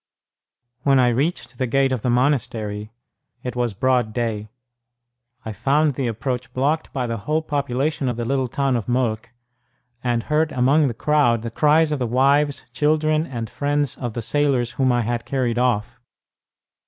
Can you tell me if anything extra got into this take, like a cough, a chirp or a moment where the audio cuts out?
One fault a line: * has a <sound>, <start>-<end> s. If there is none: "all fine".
all fine